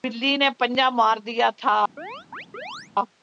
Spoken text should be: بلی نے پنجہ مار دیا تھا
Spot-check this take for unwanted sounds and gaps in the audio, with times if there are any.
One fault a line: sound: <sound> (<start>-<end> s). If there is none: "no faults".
sound: chirp (2.0-2.9 s)